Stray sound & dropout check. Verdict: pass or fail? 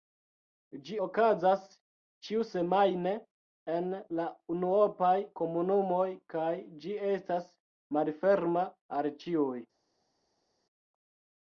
pass